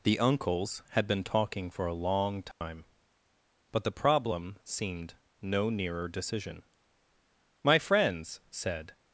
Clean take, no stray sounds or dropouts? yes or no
no